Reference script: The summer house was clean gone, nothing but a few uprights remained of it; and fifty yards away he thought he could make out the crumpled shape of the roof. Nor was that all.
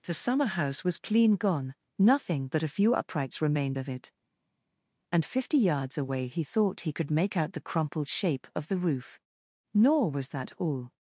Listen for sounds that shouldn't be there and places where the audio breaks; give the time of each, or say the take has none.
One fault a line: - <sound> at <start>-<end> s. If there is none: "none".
none